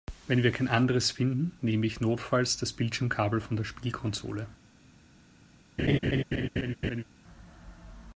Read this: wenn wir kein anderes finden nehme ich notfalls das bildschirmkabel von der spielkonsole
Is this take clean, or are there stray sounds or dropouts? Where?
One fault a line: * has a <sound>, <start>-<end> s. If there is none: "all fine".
* has a laugh, 5.8-7.0 s